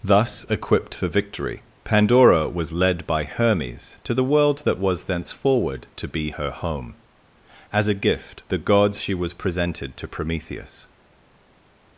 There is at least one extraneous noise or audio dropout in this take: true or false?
false